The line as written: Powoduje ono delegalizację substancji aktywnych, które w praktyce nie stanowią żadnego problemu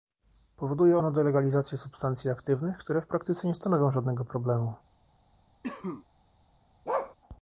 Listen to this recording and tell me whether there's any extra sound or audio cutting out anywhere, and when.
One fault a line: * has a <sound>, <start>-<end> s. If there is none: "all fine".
* has a cough, 5.6-6.1 s
* has a bark, 6.9-7.2 s